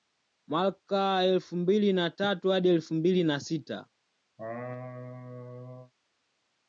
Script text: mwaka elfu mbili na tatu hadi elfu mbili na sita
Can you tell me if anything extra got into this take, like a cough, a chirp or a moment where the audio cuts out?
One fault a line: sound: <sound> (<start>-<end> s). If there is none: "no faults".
sound: laugh (4.4-5.9 s)